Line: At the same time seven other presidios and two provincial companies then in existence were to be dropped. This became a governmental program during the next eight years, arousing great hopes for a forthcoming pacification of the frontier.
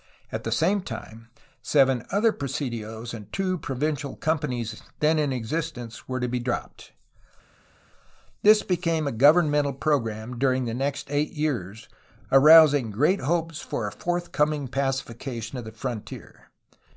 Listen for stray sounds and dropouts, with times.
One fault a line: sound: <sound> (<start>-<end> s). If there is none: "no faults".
no faults